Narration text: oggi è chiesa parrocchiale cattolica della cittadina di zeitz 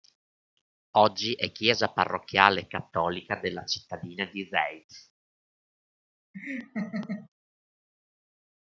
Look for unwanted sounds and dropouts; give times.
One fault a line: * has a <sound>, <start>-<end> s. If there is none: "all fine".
* has a laugh, 6.3-7.3 s